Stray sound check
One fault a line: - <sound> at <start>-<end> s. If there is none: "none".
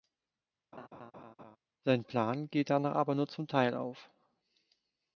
- laugh at 0.7-1.6 s